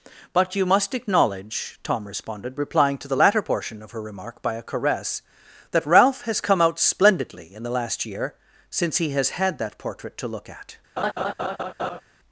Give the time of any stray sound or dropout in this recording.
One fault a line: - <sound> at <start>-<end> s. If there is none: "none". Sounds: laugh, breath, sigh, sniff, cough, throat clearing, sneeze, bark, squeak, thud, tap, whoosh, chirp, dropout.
- laugh at 11.0-12.0 s